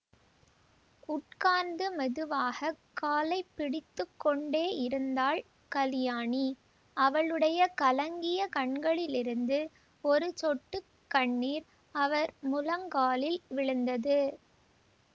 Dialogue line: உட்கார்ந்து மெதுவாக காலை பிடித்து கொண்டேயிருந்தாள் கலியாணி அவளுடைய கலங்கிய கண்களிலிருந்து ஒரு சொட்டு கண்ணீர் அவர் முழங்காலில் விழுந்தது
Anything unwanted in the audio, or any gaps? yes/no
no